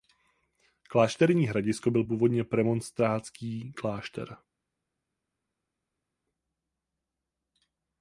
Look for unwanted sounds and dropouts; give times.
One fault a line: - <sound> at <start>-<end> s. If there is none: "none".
none